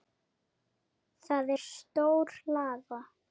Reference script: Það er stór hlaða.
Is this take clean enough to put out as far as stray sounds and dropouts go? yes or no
yes